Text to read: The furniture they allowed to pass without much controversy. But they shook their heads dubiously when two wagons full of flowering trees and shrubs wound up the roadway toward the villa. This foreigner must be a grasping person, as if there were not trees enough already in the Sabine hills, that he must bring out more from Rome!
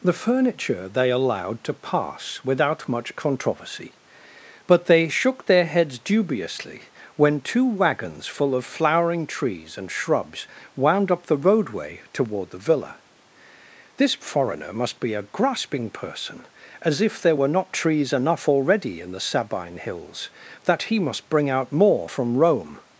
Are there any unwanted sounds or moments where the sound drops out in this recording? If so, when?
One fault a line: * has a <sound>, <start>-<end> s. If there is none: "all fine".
all fine